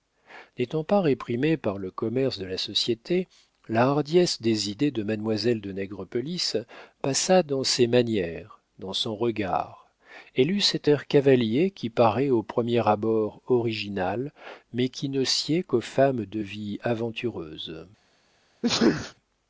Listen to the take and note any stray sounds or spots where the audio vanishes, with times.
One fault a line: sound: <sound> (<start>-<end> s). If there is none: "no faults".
sound: sneeze (18.6-19.1 s)